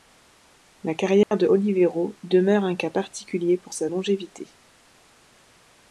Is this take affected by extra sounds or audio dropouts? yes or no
yes